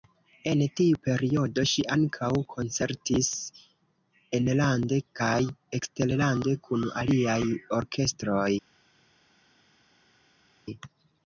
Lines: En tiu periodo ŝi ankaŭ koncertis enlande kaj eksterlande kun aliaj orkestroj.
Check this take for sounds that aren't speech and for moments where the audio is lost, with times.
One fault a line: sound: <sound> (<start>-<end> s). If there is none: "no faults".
no faults